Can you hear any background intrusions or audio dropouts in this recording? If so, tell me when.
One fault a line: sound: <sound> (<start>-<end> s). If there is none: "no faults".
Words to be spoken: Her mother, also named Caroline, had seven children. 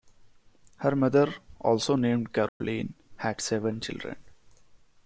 sound: dropout (2.5-2.6 s)